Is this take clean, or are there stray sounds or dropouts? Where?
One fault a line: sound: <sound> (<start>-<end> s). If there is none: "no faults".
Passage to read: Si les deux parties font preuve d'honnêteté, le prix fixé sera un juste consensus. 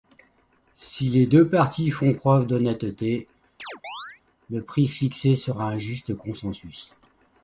sound: chirp (3.6-4.2 s)